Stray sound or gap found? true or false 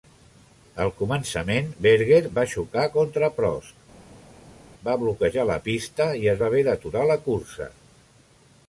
false